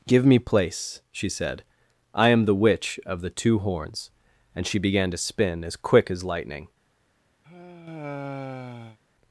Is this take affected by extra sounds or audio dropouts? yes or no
yes